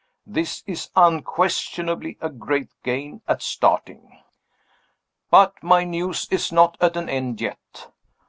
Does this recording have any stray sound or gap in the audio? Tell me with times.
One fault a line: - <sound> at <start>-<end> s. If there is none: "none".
none